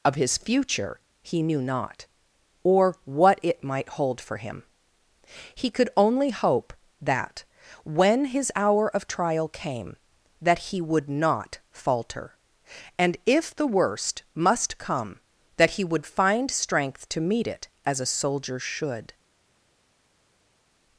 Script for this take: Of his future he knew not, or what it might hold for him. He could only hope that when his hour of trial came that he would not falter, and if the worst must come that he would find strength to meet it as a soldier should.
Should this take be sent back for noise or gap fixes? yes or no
no